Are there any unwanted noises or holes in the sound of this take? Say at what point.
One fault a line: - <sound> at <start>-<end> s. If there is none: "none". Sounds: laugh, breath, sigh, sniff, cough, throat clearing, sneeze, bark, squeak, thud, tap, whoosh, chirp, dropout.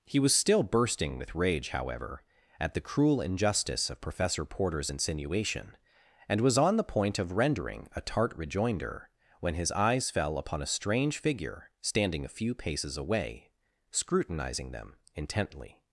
none